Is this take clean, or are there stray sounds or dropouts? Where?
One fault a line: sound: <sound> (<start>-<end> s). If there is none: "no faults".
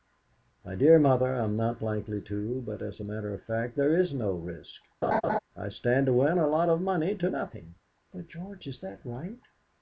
sound: laugh (5.0-5.4 s)